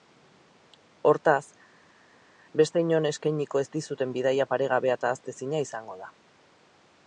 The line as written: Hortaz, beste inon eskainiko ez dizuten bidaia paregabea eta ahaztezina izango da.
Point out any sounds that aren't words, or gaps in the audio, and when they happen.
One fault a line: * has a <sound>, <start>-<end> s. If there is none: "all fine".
all fine